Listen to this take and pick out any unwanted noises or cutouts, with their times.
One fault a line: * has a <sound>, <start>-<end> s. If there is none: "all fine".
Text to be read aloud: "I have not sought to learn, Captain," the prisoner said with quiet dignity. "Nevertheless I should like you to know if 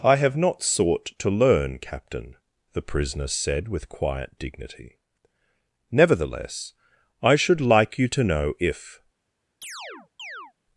* has a chirp, 9.6-10.5 s